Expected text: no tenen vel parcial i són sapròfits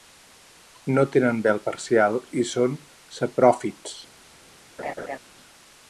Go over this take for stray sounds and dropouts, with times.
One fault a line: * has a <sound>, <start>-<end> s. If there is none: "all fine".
* has a laugh, 4.8-5.2 s